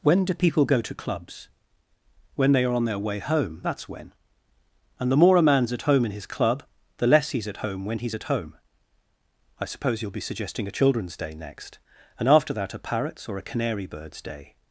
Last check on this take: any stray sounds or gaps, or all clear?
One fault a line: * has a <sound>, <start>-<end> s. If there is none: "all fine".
all fine